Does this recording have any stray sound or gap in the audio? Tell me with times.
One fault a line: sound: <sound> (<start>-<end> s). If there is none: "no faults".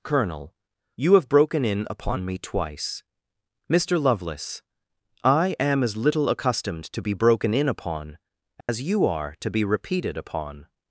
sound: dropout (8.6-8.7 s)